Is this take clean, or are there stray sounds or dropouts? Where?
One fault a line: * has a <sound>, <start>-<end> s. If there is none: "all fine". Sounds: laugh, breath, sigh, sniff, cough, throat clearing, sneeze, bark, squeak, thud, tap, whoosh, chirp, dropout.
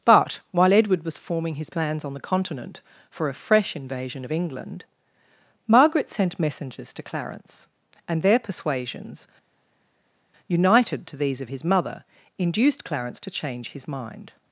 all fine